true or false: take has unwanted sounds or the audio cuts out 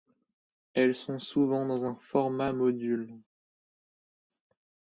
false